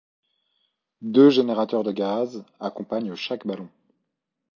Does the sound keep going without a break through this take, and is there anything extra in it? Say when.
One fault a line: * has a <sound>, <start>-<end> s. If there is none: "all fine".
all fine